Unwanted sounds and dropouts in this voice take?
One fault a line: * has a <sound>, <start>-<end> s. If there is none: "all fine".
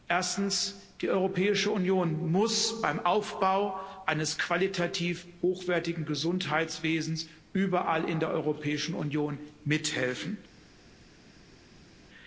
all fine